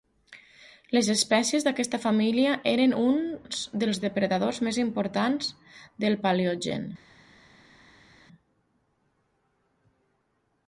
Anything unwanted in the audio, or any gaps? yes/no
no